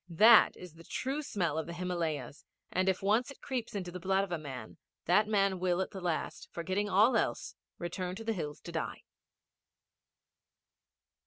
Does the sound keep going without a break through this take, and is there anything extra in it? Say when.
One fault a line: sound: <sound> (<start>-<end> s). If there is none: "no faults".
no faults